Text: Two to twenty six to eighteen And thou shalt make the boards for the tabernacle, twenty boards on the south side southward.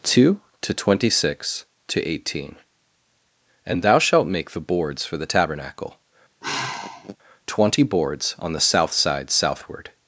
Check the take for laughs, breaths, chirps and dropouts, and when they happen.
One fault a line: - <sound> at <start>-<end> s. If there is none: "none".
- sigh at 6.4-7.2 s